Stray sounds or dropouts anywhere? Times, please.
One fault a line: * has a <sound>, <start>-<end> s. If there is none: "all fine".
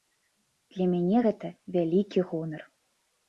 all fine